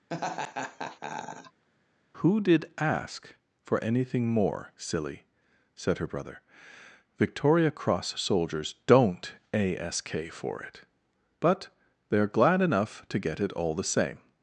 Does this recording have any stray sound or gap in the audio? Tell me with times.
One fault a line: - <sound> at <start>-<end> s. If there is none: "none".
- laugh at 0.1-1.6 s